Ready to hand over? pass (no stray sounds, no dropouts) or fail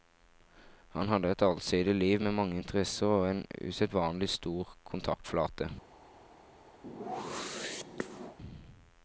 fail